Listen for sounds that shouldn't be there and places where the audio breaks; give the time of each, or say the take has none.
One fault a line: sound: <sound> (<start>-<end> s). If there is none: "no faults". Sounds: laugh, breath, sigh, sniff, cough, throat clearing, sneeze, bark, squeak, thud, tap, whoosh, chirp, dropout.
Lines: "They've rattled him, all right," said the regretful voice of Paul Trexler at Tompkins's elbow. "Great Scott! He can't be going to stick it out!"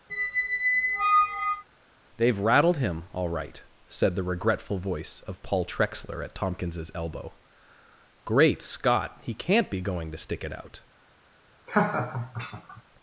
sound: squeak (0.1-1.6 s)
sound: laugh (11.7-12.8 s)